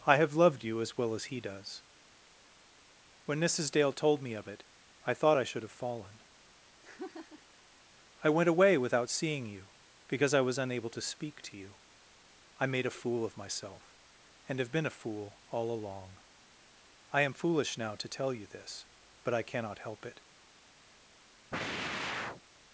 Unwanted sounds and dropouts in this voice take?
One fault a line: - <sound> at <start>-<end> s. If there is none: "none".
- laugh at 6.8-7.6 s
- sigh at 21.5-22.4 s